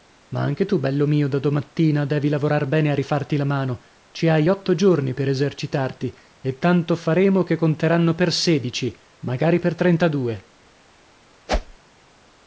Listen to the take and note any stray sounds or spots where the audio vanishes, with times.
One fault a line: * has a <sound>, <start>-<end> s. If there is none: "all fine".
* has a whoosh, 11.5-11.8 s